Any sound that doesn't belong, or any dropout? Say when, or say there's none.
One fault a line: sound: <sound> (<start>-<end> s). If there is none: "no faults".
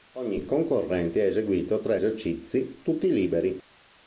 no faults